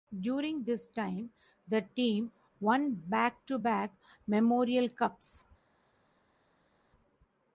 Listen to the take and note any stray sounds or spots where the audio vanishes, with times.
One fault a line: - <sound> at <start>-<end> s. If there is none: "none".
none